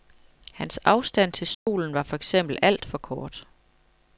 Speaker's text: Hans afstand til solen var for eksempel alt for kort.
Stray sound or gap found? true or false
true